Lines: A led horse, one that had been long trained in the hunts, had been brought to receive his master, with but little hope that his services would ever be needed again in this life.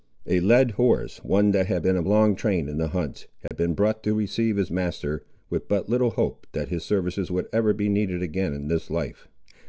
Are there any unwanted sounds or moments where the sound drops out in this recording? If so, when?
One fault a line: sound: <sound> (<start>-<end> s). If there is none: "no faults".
sound: dropout (3.5-3.5 s)